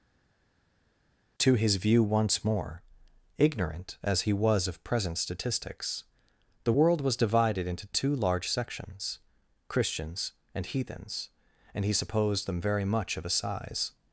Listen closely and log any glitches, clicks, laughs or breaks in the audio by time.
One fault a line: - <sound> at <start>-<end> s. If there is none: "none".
none